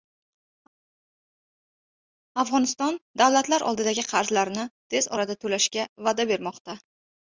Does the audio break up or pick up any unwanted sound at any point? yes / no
no